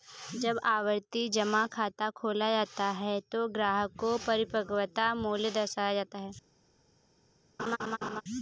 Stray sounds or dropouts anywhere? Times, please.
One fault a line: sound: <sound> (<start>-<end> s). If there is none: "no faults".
sound: laugh (7.6-8.2 s)